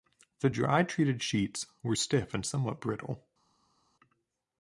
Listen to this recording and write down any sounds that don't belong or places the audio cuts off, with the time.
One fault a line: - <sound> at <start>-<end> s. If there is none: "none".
none